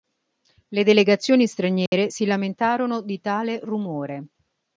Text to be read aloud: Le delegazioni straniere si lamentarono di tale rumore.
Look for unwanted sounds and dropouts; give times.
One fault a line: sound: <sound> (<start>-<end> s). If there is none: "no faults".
sound: dropout (1.9-1.9 s)